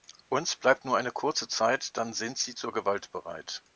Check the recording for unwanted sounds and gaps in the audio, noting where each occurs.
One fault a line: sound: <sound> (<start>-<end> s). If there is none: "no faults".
no faults